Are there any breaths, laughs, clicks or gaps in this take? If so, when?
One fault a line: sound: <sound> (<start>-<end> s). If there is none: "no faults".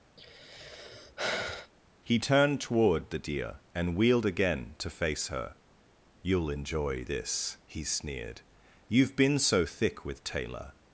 sound: sigh (0.2-1.7 s)